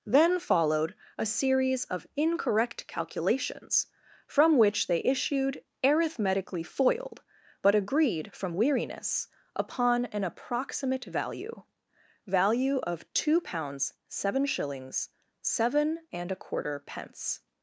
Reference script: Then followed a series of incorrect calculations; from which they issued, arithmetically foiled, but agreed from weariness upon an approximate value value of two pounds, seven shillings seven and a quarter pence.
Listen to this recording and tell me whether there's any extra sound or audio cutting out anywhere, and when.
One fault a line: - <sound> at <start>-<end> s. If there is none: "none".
none